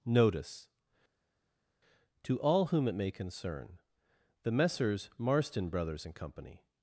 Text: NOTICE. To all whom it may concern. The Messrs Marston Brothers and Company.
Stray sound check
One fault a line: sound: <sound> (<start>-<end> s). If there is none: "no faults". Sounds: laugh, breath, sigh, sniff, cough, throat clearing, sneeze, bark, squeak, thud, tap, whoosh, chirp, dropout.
no faults